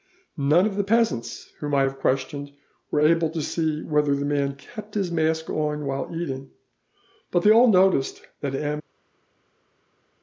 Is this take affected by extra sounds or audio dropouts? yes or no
no